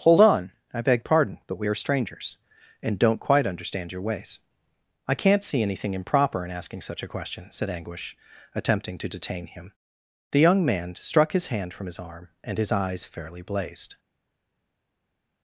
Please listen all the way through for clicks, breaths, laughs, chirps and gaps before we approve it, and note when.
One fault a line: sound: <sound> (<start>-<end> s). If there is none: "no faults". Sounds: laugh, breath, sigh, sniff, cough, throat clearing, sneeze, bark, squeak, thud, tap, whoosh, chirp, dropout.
no faults